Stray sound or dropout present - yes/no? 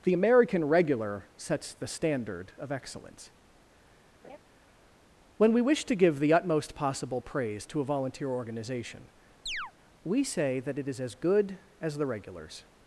yes